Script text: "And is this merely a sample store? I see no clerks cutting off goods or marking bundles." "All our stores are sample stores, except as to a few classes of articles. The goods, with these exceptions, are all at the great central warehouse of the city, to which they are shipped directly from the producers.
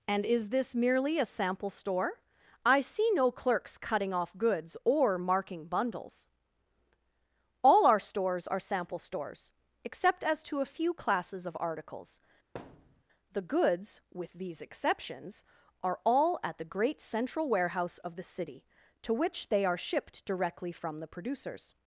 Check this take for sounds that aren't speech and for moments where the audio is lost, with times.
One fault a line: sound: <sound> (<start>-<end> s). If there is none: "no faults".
sound: thud (12.5-13.0 s)